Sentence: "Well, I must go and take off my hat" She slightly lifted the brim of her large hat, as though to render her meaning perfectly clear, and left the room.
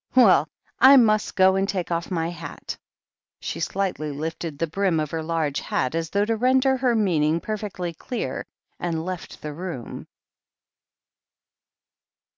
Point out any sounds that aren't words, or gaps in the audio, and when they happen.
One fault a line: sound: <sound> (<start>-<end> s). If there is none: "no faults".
no faults